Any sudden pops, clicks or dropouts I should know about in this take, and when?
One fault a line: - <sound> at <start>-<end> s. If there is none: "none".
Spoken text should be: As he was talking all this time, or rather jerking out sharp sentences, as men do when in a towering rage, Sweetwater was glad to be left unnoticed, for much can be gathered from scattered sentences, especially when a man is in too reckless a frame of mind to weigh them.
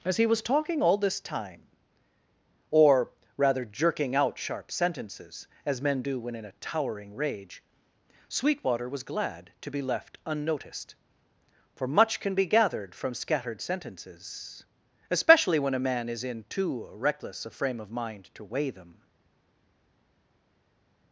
none